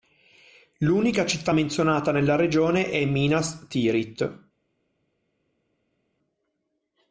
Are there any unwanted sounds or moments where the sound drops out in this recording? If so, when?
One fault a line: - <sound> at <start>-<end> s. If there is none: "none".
none